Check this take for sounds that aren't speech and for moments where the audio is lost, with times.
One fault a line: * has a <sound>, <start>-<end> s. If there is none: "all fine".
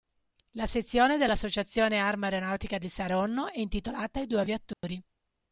* has a dropout, 4.7-4.8 s